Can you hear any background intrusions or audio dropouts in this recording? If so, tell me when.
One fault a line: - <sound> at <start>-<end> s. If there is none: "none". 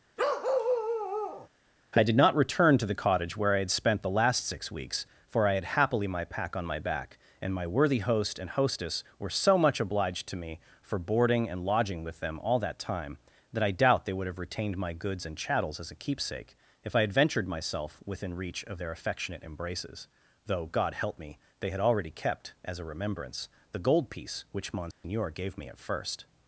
- bark at 0.2-1.5 s
- dropout at 24.9-25.0 s